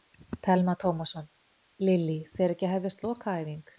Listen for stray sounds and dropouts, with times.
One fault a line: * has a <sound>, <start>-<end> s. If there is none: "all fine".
all fine